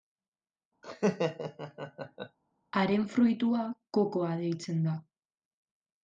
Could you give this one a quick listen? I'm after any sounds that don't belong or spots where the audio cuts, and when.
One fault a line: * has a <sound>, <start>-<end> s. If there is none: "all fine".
* has a laugh, 0.8-2.4 s